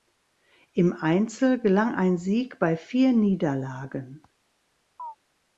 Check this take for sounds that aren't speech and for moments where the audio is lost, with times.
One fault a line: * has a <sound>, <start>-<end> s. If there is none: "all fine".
* has a chirp, 5.0-5.2 s